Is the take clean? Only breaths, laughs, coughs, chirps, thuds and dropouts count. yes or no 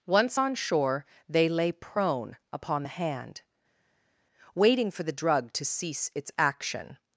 yes